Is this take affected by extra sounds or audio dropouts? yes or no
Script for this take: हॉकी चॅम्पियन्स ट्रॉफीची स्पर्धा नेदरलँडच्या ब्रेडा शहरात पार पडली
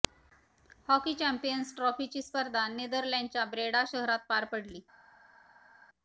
no